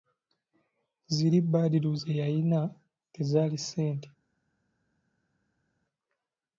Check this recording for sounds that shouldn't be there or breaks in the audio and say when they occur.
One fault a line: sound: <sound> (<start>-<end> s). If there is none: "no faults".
no faults